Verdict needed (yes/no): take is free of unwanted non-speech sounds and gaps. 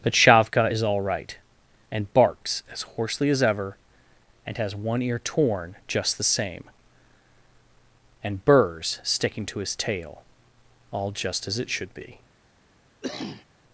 no